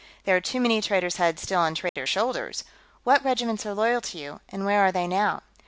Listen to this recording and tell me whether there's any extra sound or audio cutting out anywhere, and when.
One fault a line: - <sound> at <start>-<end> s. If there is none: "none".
- dropout at 1.9-2.0 s